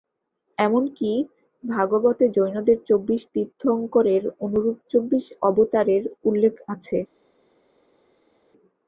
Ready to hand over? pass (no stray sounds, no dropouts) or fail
pass